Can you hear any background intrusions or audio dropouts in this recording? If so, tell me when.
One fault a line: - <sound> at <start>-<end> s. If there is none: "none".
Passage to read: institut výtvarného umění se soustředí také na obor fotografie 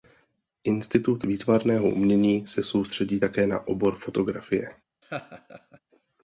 - laugh at 5.0-5.8 s